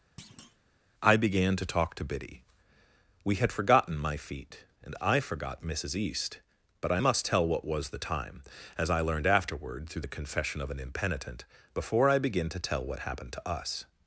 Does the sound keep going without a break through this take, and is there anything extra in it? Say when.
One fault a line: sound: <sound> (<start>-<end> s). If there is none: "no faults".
sound: thud (0.2-0.6 s)